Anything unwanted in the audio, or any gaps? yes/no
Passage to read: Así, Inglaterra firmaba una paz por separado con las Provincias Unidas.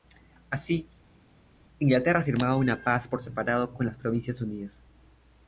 no